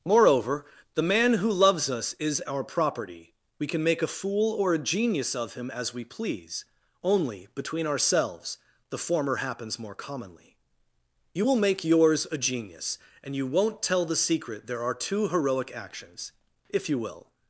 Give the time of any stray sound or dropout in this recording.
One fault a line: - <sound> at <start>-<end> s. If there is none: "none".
none